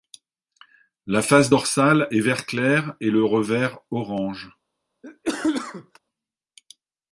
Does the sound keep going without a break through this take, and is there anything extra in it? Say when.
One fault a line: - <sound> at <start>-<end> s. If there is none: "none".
- cough at 5.0-6.0 s